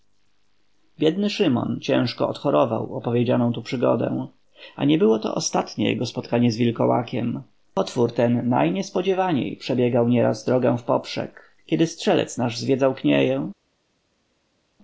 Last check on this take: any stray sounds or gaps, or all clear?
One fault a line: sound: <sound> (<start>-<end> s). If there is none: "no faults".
no faults